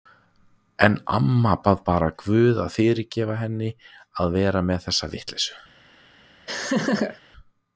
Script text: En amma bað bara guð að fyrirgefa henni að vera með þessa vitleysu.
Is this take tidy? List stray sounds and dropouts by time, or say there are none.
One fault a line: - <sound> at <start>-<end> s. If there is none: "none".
- laugh at 6.5-7.2 s